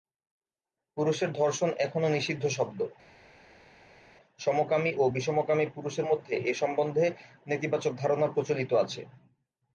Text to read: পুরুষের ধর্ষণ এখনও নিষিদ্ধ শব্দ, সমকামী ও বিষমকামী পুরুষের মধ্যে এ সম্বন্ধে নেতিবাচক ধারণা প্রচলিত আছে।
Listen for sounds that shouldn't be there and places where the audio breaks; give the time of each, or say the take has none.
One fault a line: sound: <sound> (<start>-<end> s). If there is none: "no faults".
no faults